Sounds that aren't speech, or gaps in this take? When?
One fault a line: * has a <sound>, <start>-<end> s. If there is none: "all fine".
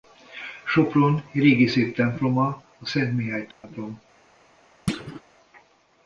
* has a dropout, 3.5-3.6 s
* has a thud, 4.9-5.2 s